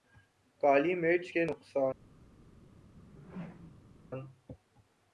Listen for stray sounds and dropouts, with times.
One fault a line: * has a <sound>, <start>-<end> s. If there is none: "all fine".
* has a whoosh, 2.9-4.0 s